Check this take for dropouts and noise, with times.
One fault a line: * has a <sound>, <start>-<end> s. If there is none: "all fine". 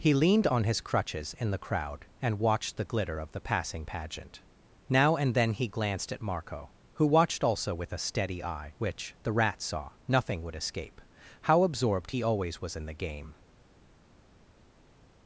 all fine